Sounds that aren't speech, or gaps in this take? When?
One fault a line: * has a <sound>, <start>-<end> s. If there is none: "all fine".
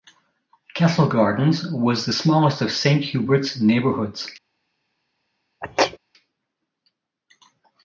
* has a sneeze, 5.6-6.0 s